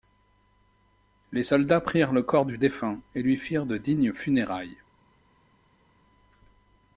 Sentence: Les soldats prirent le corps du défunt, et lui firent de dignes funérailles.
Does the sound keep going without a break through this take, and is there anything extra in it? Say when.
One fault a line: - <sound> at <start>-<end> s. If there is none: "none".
none